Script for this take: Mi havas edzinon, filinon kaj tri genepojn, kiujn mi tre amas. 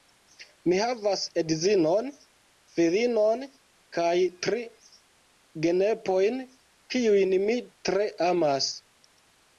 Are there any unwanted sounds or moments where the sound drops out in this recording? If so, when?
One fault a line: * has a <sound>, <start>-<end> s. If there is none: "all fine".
all fine